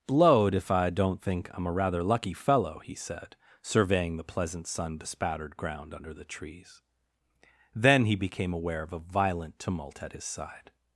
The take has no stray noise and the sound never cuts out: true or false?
true